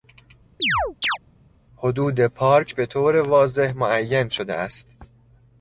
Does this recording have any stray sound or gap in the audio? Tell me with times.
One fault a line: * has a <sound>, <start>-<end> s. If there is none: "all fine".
* has a chirp, 0.6-1.2 s